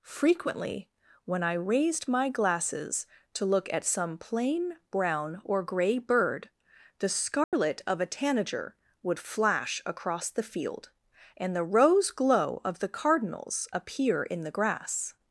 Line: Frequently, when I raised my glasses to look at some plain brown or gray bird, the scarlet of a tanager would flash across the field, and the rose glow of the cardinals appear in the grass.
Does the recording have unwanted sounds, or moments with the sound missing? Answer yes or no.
yes